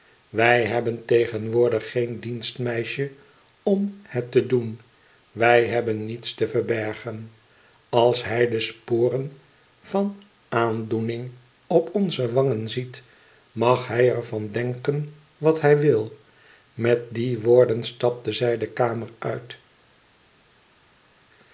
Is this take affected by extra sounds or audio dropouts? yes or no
no